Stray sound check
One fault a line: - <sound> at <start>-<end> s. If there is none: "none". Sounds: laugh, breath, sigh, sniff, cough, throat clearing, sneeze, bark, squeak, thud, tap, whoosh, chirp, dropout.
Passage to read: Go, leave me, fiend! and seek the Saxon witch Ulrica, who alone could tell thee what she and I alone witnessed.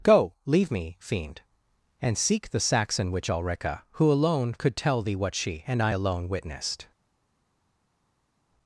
none